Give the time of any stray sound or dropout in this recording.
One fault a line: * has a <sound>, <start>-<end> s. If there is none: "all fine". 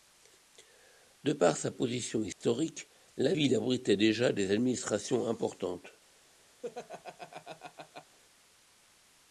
* has a dropout, 2.3-2.4 s
* has a laugh, 6.6-8.2 s